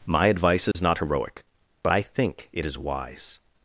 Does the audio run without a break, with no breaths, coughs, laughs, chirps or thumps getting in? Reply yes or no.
no